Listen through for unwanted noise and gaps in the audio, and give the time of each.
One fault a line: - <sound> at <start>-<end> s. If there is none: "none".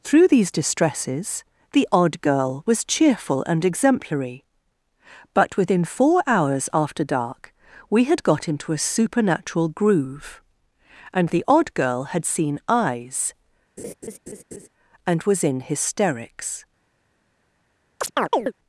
- laugh at 13.8-14.7 s
- chirp at 18.0-18.5 s